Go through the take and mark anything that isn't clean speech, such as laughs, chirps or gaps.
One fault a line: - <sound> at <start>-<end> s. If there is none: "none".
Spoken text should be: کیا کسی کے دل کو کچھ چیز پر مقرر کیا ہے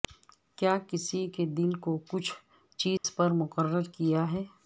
- dropout at 3.0-3.0 s